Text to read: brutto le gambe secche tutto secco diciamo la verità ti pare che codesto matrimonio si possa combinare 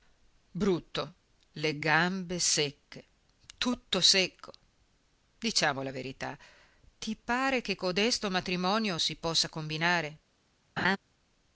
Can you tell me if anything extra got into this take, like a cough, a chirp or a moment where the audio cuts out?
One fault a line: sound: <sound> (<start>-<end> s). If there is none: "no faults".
sound: laugh (10.8-11.0 s)